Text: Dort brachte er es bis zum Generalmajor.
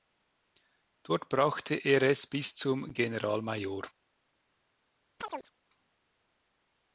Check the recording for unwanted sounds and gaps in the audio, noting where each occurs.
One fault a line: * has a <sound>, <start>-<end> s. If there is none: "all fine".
* has a chirp, 5.2-5.5 s